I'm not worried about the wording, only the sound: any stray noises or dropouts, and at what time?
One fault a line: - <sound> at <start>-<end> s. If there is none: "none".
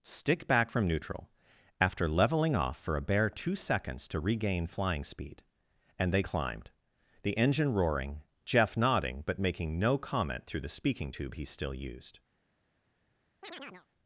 - chirp at 13.4-13.9 s